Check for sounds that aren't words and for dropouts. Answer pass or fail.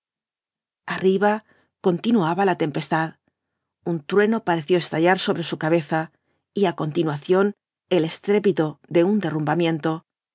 pass